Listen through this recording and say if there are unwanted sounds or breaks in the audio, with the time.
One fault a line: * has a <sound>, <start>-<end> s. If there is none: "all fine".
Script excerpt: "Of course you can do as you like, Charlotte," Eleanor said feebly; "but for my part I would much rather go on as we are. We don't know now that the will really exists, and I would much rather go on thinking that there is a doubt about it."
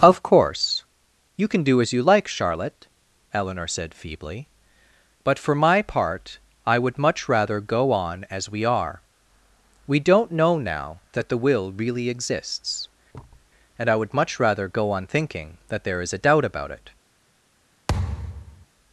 * has a thud, 13.1-13.5 s
* has a thud, 17.9-18.7 s